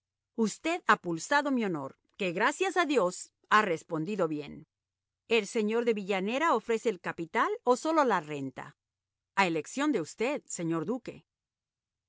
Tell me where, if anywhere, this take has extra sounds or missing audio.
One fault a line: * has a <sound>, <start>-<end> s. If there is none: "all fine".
all fine